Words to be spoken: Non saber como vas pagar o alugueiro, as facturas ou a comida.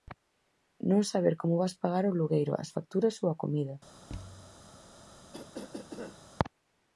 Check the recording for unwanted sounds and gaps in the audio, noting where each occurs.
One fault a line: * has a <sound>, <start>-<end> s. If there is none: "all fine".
* has a thud, 4.1-4.6 s
* has a cough, 5.3-6.2 s